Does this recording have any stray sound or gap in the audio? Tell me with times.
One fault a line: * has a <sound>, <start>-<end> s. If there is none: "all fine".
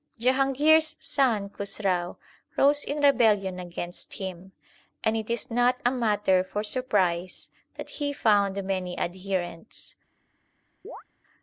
* has a chirp, 10.8-11.0 s